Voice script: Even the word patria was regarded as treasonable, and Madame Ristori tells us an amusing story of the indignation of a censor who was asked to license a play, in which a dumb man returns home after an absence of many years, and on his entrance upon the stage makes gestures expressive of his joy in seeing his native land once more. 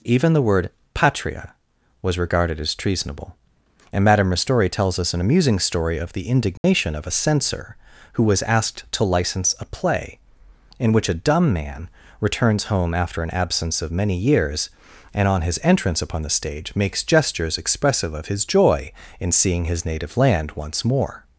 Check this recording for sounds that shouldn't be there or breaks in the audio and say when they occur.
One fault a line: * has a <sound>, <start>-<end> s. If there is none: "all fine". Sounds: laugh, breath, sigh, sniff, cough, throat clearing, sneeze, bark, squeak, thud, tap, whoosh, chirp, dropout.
* has a dropout, 6.6-6.6 s